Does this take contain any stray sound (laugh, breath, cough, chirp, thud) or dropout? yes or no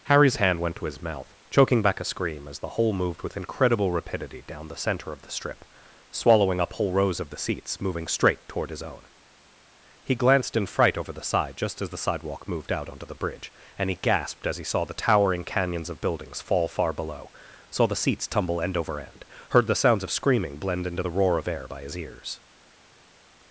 no